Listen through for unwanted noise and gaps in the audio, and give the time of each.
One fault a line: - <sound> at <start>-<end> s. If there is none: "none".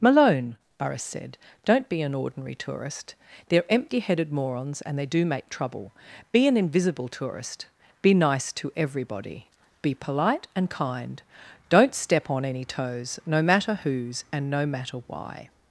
none